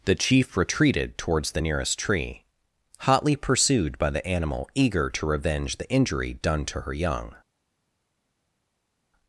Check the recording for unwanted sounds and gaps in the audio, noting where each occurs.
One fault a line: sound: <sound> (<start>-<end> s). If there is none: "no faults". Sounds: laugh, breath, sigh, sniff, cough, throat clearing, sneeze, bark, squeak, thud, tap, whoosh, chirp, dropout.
no faults